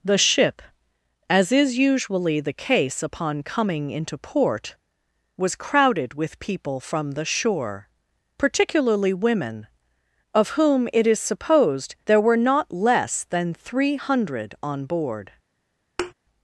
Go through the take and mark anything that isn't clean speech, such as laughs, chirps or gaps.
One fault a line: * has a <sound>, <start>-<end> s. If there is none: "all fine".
* has a thud, 16.0-16.1 s